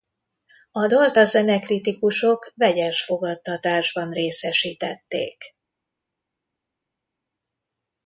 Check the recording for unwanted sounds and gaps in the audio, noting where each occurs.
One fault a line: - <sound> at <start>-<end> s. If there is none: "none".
none